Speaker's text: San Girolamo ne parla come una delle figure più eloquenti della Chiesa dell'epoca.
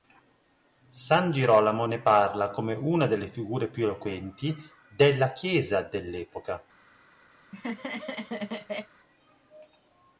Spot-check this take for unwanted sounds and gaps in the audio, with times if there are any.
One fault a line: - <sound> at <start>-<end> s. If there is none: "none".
- laugh at 7.4-8.9 s